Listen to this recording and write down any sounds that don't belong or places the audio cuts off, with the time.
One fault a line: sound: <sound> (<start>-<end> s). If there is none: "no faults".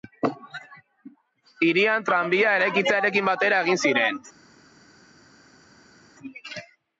no faults